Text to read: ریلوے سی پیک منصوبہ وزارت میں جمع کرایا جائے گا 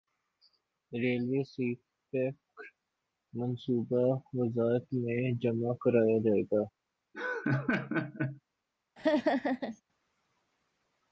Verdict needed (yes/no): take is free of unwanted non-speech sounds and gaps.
no